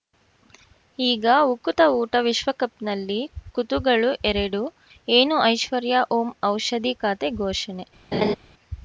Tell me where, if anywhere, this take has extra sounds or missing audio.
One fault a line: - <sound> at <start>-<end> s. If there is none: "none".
- laugh at 8.1-8.4 s